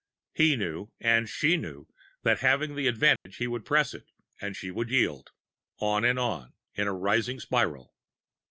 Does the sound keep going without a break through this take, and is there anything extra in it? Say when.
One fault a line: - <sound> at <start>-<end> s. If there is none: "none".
- dropout at 3.2-3.3 s